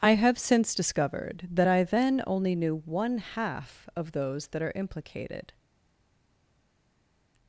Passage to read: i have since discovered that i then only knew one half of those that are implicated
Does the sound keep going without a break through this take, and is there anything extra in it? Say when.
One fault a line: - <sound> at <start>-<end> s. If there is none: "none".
none